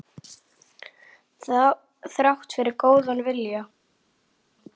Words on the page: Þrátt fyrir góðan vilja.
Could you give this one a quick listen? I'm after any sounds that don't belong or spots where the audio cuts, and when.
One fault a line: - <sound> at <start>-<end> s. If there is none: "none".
none